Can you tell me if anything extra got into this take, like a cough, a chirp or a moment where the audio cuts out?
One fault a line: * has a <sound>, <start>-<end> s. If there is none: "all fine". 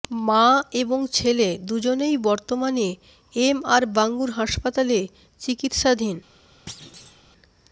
* has a thud, 6.7-7.2 s